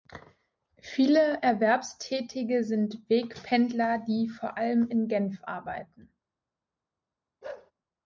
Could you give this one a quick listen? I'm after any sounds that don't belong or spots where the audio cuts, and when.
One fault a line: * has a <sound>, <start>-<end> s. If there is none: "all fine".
* has a bark, 7.4-7.7 s